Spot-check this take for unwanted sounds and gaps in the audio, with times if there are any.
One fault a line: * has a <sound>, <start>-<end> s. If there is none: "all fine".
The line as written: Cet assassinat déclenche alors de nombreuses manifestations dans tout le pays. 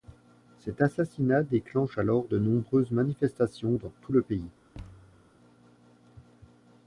* has a thud, 4.7-5.3 s